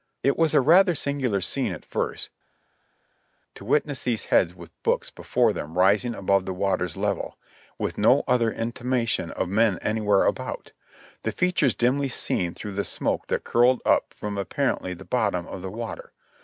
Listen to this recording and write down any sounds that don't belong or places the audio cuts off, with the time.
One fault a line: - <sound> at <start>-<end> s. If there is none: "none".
none